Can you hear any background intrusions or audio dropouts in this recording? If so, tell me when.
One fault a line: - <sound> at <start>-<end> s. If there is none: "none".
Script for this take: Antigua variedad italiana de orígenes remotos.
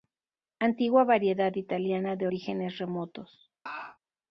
- laugh at 3.7-4.0 s